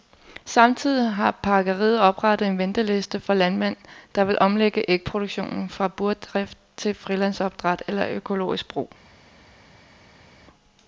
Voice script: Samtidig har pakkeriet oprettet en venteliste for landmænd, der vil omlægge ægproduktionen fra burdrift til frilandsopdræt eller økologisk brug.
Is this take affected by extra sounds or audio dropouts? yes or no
no